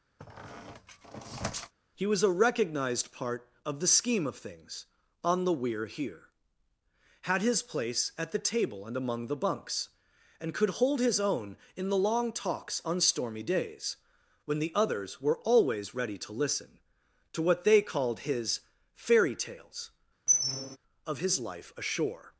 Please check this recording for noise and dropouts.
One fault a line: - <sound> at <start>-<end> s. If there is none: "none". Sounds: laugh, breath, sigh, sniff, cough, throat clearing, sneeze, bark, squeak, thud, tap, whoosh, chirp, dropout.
- squeak at 0.2-1.7 s
- squeak at 20.3-20.8 s